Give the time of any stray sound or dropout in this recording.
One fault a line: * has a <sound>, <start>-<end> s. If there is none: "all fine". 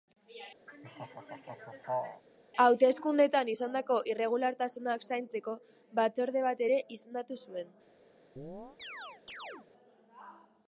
* has a laugh, 0.7-2.2 s
* has a chirp, 8.4-9.7 s